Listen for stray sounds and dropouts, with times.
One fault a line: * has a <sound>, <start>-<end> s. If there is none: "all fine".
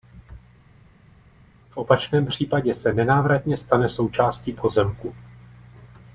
all fine